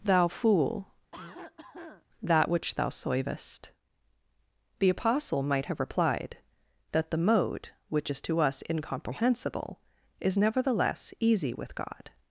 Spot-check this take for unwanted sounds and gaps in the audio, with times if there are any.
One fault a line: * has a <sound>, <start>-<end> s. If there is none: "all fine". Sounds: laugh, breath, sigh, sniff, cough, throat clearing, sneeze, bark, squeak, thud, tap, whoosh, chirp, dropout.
* has a cough, 1.1-2.1 s